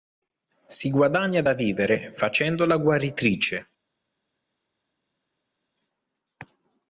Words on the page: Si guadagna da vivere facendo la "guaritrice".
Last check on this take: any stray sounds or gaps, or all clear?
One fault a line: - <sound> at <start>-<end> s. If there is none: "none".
none